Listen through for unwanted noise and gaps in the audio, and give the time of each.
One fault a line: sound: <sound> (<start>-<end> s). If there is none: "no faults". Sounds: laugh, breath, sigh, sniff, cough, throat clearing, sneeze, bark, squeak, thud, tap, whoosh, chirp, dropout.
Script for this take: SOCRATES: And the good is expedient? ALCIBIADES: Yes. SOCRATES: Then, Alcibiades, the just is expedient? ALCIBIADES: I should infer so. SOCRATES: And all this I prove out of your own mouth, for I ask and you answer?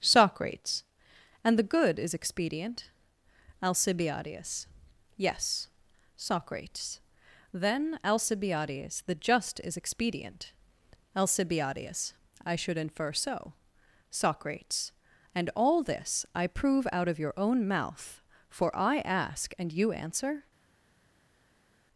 no faults